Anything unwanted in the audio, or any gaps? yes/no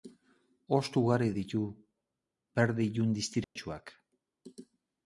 yes